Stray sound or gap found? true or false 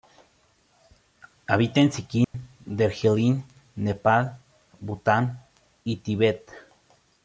true